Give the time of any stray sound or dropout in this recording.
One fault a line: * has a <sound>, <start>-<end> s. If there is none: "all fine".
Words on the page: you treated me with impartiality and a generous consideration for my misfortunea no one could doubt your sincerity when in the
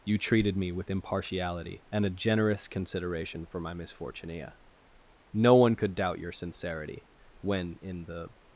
all fine